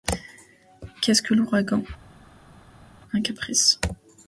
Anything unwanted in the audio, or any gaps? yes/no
no